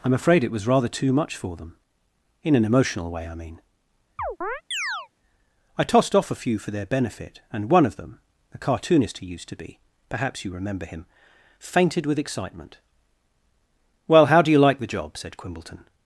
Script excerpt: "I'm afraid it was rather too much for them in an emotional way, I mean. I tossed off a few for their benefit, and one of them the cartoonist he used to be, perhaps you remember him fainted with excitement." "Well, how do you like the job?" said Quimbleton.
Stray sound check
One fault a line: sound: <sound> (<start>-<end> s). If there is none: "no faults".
sound: chirp (4.2-5.1 s)